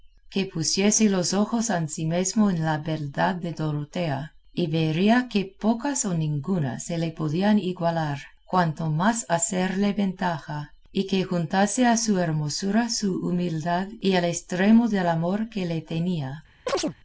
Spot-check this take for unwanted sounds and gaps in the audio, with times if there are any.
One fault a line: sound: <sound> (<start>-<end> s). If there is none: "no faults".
sound: chirp (16.7-17.0 s)